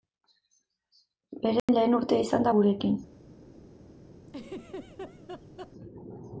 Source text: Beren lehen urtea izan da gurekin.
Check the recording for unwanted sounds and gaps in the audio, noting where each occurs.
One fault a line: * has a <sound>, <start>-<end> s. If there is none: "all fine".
* has a dropout, 1.6-1.7 s
* has a laugh, 4.3-5.7 s